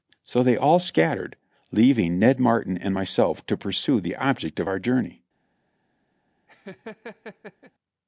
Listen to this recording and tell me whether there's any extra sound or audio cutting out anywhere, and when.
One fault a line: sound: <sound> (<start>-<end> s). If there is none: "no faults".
sound: laugh (6.5-7.7 s)